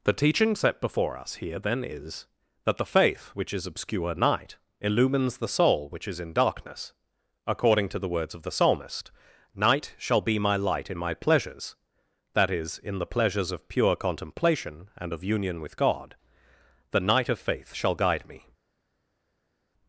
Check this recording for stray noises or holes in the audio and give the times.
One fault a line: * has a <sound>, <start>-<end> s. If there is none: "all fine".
all fine